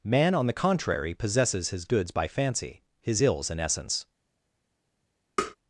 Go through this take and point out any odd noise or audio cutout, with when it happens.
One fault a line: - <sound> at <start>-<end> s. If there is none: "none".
- tap at 5.4-5.6 s